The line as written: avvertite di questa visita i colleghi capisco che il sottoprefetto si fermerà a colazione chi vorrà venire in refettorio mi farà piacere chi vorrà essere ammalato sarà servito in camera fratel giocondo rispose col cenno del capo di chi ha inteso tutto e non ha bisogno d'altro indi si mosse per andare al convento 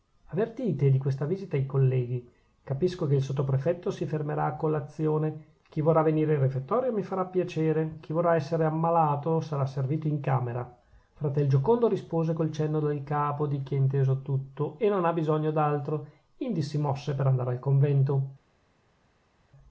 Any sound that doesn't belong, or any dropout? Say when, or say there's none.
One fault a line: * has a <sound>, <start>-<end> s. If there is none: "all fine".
all fine